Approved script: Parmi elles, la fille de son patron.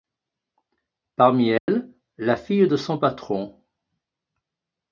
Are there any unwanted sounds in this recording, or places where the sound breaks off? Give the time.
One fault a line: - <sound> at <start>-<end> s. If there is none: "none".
- dropout at 1.6-1.7 s